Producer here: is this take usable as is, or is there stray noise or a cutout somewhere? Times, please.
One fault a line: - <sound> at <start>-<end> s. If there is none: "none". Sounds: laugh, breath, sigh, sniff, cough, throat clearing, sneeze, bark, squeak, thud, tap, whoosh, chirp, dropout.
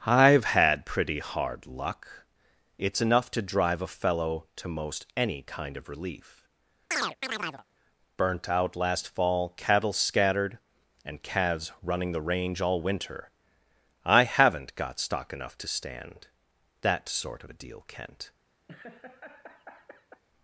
- chirp at 6.9-7.6 s
- laugh at 18.7-20.2 s